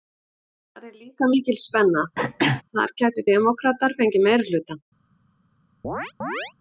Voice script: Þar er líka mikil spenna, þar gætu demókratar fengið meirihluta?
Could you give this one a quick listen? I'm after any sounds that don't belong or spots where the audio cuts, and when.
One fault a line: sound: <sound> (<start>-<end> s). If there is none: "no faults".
sound: throat clearing (2.2-2.6 s)
sound: chirp (5.8-6.5 s)